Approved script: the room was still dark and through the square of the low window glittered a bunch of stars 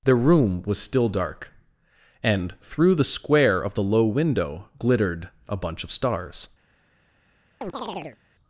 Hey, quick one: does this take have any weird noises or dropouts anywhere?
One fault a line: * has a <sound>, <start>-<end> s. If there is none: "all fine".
* has a chirp, 7.6-8.2 s